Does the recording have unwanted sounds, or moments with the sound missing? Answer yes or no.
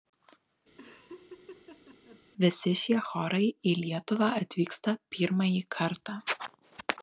yes